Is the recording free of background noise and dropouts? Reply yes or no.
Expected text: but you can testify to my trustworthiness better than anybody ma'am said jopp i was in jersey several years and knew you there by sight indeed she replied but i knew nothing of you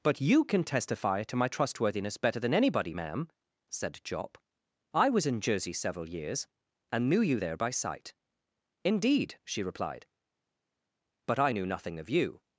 yes